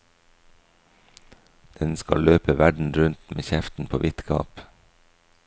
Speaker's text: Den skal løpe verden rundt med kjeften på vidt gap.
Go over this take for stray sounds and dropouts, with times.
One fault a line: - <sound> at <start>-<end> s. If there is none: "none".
none